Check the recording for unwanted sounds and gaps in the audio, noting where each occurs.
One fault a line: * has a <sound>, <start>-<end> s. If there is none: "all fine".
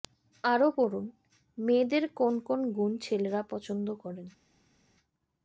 all fine